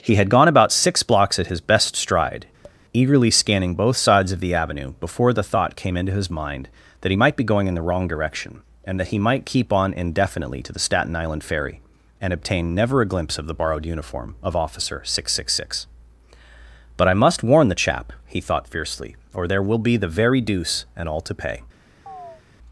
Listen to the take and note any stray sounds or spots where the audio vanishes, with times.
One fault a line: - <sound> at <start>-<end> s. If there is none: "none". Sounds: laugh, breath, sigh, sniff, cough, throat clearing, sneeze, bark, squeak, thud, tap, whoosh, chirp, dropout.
- tap at 2.6-2.8 s
- chirp at 22.1-22.4 s